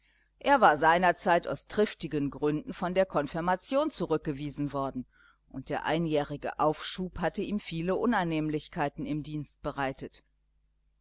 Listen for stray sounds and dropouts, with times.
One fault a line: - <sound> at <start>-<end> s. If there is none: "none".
none